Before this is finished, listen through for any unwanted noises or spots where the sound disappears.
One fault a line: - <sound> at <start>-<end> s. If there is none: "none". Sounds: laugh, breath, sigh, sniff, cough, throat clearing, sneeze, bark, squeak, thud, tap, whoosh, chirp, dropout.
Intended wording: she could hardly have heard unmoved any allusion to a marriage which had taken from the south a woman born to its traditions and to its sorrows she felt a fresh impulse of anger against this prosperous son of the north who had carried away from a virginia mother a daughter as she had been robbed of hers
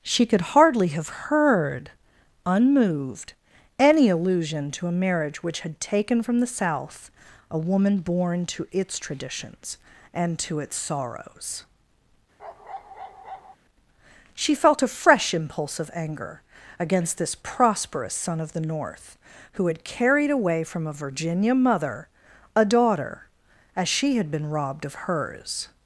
- bark at 12.4-13.6 s